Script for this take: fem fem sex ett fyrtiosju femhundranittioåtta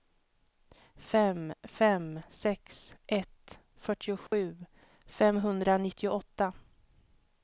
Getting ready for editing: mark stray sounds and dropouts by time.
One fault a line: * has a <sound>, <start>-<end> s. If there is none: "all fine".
* has a dropout, 4.3-4.3 s